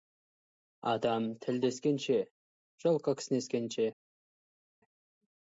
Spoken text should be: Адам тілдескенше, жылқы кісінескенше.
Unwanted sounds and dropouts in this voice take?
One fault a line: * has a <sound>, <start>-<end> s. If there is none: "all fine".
all fine